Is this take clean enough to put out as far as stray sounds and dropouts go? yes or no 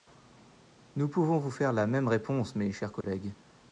no